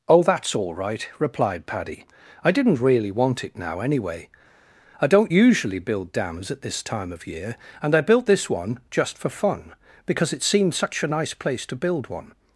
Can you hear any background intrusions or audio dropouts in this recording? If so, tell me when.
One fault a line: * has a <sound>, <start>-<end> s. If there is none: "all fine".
all fine